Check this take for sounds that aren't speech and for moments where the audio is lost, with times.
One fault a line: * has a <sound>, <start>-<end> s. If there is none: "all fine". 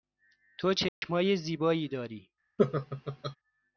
* has a dropout, 0.9-1.0 s
* has a laugh, 2.6-3.4 s